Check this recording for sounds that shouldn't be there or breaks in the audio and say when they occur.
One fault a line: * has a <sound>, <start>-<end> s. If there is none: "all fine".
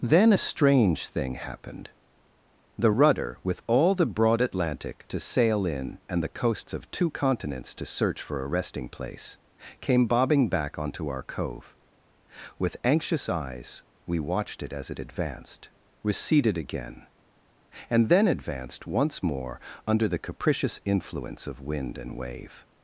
all fine